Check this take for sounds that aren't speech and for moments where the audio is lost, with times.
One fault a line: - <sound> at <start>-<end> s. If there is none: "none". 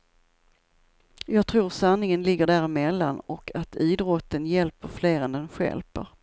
none